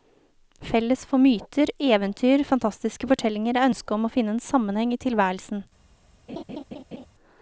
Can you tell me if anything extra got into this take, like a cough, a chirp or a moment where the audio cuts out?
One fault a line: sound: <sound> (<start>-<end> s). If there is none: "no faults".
sound: laugh (6.3-7.1 s)